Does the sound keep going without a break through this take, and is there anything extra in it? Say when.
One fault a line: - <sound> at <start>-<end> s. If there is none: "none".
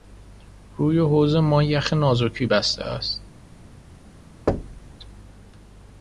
- thud at 4.5-5.0 s